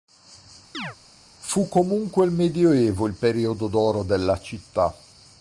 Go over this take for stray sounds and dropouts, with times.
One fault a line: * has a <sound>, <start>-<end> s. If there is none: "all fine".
* has a chirp, 0.7-1.0 s